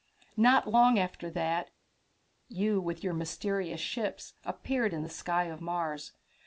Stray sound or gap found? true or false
false